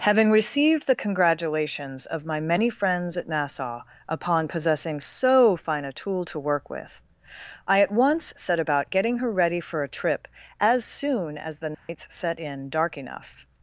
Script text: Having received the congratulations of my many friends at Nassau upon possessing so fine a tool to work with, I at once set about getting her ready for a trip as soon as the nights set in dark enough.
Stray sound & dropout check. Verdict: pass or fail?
fail